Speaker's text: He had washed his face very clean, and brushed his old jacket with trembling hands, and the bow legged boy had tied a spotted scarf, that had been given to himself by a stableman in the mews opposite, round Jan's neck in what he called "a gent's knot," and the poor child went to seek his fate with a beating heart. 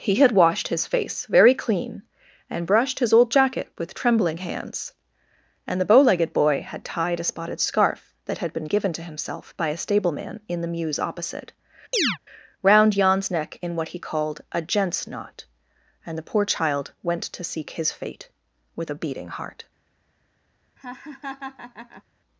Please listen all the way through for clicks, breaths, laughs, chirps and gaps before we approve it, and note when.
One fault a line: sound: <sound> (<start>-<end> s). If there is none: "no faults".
sound: chirp (11.9-12.2 s)
sound: laugh (20.8-22.0 s)